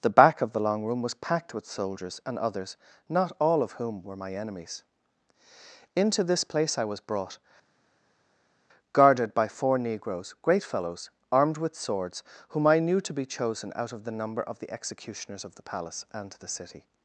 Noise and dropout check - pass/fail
pass